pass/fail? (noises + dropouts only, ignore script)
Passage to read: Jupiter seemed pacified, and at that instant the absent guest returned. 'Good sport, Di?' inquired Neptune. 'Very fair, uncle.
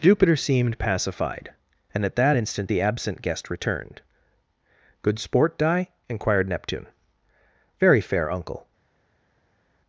pass